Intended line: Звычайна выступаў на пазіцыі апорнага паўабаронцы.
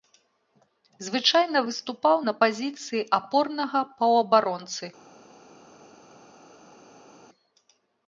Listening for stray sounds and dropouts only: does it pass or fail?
pass